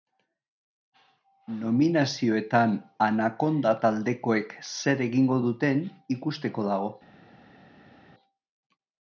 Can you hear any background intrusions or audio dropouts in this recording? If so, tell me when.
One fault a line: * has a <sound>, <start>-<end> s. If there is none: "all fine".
all fine